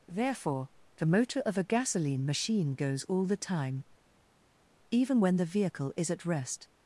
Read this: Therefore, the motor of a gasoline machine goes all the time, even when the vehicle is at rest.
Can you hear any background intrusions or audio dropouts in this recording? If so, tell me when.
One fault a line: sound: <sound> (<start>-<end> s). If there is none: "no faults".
no faults